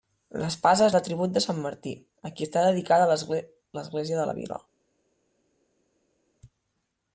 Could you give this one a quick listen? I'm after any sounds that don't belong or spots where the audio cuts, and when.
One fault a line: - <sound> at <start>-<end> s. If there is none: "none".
none